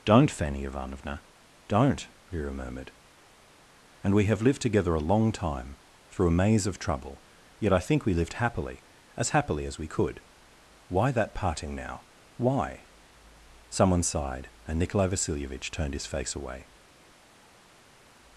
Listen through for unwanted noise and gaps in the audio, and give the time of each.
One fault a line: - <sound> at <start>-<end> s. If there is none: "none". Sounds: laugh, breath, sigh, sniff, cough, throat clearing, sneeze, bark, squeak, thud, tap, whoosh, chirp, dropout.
none